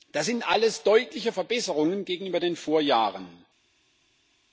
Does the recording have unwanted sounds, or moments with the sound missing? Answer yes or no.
no